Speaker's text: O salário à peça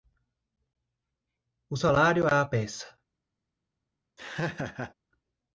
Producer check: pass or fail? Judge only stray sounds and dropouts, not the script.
fail